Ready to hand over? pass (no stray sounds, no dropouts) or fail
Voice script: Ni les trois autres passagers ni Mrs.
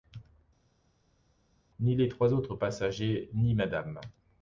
pass